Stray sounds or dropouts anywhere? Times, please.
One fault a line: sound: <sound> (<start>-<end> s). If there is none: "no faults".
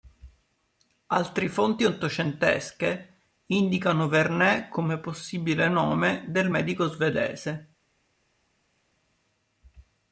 no faults